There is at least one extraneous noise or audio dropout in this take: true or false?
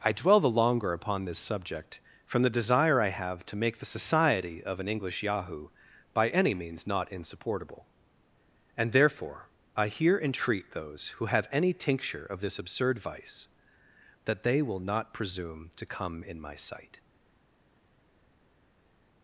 false